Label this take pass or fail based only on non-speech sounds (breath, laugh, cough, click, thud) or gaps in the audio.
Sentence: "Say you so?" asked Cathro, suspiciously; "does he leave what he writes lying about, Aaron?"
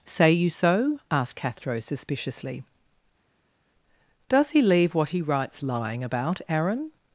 pass